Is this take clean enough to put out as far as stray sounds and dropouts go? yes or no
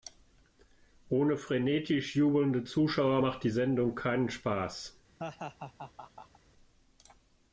no